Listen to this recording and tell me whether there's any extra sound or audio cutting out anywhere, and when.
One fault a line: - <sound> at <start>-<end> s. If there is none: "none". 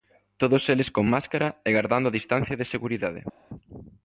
none